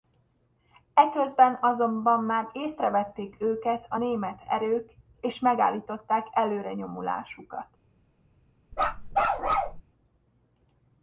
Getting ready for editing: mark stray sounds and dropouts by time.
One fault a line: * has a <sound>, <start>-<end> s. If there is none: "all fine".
* has a bark, 8.7-9.8 s